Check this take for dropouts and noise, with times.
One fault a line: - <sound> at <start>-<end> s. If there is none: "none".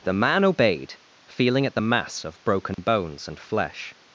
- dropout at 2.7-2.8 s